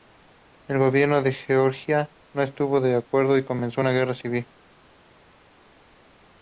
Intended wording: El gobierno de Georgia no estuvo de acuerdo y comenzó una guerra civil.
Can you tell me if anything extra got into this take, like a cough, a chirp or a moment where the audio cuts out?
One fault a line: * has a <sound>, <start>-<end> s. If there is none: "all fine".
all fine